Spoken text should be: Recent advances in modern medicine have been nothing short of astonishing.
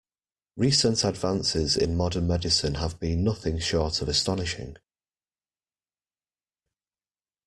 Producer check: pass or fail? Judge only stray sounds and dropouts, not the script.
pass